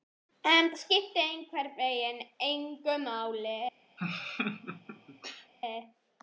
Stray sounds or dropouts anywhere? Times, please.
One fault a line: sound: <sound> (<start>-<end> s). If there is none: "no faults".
sound: laugh (4.0-5.5 s)